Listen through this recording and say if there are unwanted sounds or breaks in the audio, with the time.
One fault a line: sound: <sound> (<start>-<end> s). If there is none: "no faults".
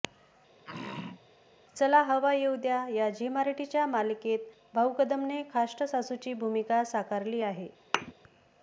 sound: throat clearing (0.6-1.3 s)
sound: thud (7.9-8.1 s)